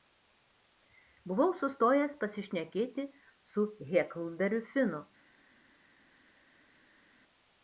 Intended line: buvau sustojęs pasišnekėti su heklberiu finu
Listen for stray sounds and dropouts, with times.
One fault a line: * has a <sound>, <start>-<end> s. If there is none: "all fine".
all fine